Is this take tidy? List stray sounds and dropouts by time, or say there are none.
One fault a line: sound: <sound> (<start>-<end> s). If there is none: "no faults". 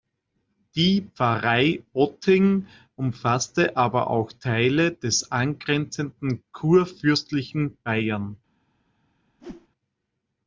sound: whoosh (9.4-9.7 s)